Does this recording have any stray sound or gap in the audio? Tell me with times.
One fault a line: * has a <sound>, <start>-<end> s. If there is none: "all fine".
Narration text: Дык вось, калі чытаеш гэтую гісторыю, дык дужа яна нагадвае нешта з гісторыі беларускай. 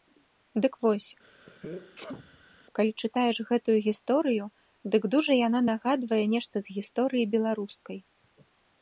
* has a sneeze, 1.2-2.6 s